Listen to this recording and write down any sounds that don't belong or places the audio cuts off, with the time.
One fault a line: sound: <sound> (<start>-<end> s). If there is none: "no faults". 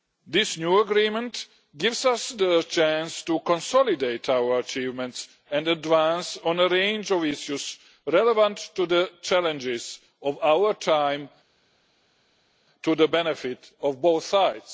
no faults